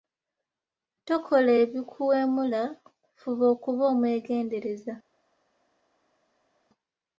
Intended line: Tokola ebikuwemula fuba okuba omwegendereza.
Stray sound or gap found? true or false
false